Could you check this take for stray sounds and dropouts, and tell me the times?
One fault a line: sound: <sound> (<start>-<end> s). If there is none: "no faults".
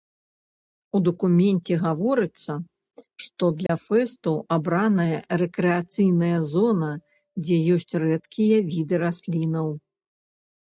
sound: dropout (3.7-3.7 s)